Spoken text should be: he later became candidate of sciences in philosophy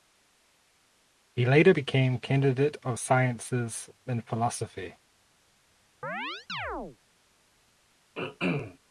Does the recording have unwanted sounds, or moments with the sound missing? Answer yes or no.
yes